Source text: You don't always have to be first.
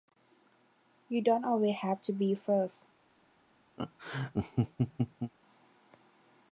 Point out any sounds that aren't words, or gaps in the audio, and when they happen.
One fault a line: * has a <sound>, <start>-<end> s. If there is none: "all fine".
* has a laugh, 3.8-5.3 s